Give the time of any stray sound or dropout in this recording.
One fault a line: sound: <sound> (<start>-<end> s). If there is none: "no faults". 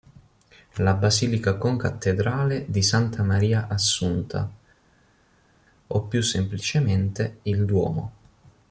no faults